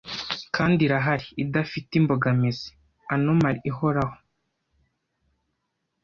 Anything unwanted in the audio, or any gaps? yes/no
no